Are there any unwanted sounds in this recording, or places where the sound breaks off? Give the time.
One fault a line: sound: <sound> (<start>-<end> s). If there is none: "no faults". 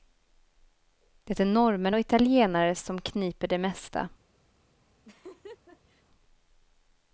sound: laugh (5.0-6.0 s)